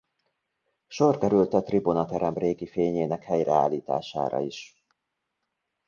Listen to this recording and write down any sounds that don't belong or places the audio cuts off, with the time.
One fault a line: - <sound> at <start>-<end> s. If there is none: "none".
none